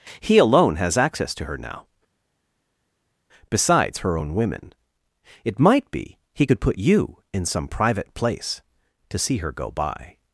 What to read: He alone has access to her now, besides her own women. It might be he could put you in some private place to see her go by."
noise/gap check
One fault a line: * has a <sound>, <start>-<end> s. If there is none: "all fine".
all fine